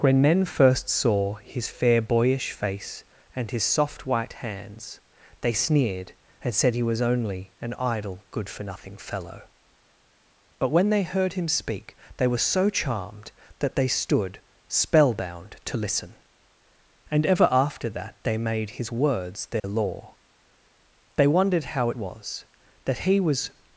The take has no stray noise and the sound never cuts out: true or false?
false